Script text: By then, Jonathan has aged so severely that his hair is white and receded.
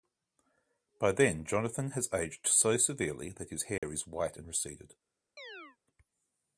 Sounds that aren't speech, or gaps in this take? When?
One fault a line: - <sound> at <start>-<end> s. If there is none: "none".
- dropout at 3.8-3.8 s
- chirp at 5.4-5.8 s